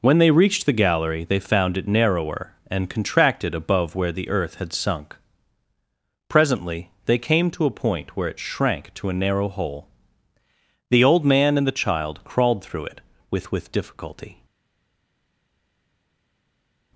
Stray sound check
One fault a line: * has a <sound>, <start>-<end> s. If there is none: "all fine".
all fine